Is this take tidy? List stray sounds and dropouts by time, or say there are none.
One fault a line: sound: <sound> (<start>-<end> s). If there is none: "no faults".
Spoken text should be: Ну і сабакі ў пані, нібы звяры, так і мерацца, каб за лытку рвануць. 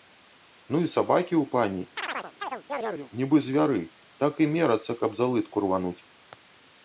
sound: chirp (2.0-3.1 s)